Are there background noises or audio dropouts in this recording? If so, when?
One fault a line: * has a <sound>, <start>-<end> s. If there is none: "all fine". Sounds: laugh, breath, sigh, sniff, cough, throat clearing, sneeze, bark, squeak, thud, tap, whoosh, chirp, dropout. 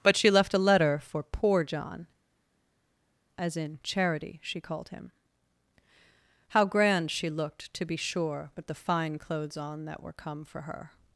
all fine